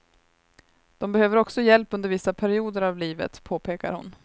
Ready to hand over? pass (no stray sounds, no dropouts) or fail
pass